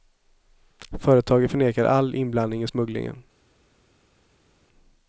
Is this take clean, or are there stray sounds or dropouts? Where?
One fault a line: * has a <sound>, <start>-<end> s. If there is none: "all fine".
all fine